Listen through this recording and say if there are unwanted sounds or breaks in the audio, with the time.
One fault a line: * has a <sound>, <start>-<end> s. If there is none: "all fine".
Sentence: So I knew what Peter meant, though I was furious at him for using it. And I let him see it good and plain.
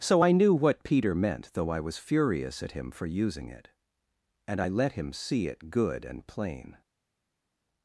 all fine